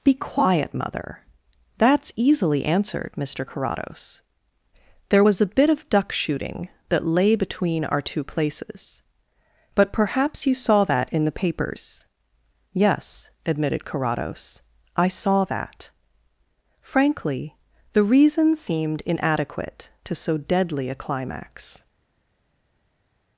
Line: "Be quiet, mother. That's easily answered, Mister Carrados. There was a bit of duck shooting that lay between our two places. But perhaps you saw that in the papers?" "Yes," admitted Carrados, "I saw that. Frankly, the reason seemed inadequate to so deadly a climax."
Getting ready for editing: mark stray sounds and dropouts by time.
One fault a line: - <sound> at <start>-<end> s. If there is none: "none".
none